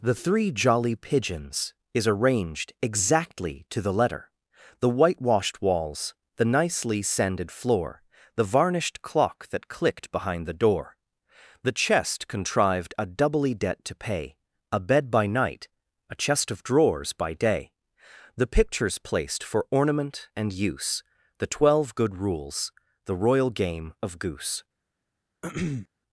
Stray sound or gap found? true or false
true